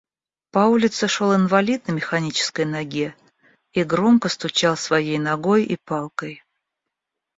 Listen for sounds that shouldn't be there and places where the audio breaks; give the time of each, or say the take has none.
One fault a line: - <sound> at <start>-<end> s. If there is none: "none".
none